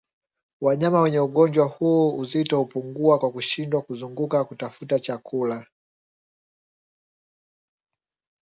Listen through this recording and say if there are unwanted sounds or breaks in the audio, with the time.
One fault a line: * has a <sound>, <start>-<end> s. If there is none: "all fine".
all fine